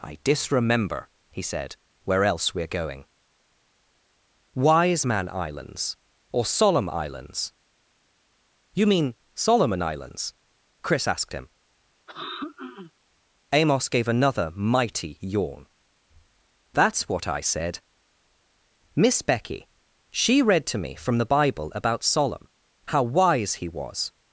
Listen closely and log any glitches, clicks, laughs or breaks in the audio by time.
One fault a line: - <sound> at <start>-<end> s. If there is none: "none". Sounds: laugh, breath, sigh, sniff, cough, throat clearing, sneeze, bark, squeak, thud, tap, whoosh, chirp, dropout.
- throat clearing at 12.1-12.9 s